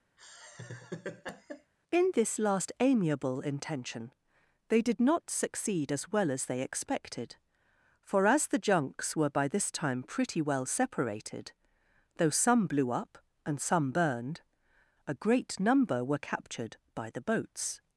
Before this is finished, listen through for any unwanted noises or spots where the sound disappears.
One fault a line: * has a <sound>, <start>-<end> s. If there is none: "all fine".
* has a laugh, 0.2-1.7 s